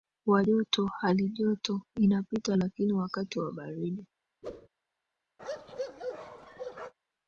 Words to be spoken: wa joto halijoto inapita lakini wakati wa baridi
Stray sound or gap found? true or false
true